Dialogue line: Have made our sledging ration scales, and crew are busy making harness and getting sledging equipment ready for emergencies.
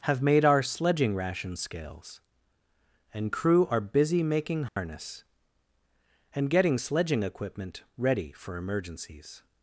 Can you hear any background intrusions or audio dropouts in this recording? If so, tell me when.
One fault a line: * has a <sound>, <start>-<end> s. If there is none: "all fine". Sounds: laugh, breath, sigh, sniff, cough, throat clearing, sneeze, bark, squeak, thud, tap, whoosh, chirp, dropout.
* has a dropout, 4.7-4.8 s